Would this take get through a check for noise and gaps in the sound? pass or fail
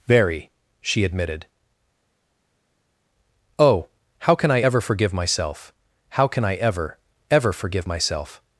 pass